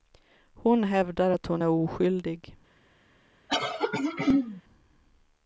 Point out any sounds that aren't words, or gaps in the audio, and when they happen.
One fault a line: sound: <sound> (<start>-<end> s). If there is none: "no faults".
sound: throat clearing (3.5-4.6 s)